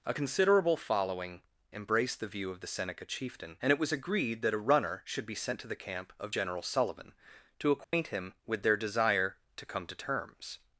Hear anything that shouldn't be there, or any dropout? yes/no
yes